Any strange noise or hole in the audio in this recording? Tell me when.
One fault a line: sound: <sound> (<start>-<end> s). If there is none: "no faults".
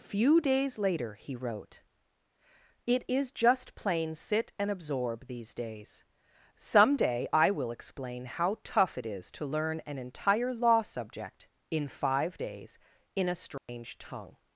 sound: dropout (13.6-13.7 s)